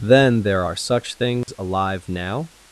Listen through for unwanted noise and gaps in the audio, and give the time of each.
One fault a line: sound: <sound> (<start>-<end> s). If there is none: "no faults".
sound: dropout (1.4-1.5 s)